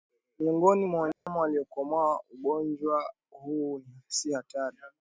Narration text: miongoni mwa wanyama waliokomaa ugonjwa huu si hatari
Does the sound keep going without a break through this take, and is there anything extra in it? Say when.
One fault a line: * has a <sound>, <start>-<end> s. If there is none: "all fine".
* has a dropout, 1.1-1.3 s